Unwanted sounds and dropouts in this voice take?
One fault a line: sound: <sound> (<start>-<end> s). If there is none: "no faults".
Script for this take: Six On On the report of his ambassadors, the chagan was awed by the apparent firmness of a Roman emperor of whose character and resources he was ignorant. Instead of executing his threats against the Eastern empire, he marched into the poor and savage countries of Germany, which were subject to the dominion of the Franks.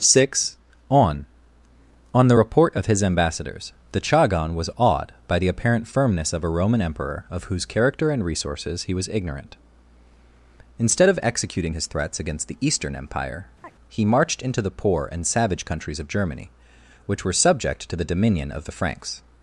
sound: chirp (13.6-13.7 s)